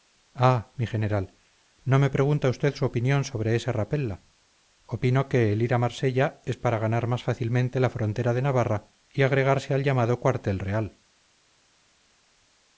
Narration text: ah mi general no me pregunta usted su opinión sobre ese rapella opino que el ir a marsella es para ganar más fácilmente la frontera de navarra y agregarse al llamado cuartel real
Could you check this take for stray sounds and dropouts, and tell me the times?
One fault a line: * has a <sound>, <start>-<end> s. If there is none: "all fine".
all fine